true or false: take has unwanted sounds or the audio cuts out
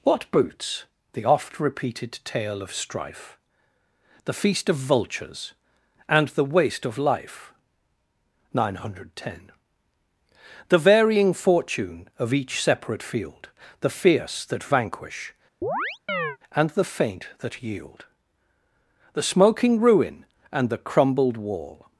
true